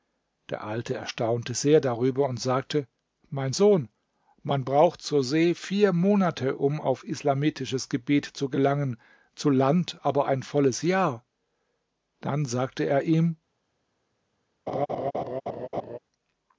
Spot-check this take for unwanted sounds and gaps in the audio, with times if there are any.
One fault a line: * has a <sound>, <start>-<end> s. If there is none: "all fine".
* has a laugh, 14.7-16.0 s